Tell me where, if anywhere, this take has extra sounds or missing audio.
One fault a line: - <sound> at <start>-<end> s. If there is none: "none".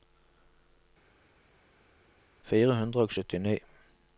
none